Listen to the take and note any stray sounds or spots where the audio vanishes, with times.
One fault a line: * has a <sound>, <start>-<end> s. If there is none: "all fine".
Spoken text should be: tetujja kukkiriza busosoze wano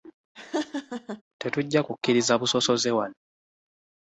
* has a laugh, 0.3-1.2 s